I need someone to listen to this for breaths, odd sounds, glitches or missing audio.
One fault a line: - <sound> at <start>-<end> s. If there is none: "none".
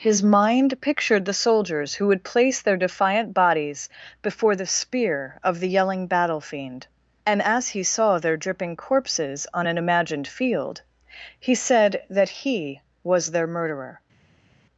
none